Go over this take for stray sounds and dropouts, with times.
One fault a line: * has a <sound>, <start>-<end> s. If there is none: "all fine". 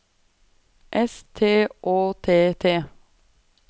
all fine